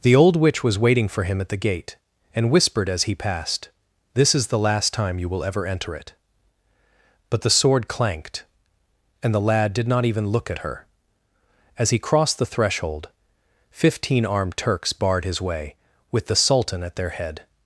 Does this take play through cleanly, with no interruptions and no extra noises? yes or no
yes